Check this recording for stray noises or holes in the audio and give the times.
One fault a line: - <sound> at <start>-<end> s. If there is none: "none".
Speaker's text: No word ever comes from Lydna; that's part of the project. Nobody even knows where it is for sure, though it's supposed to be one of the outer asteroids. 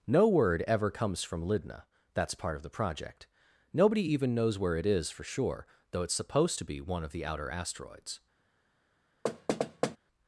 - thud at 9.2-10.0 s